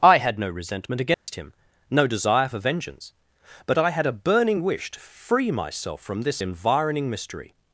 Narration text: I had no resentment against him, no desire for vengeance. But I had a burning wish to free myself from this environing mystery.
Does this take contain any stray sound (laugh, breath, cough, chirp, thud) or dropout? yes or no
yes